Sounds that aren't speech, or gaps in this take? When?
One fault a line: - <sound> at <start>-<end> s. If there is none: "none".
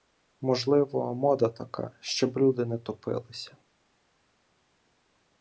none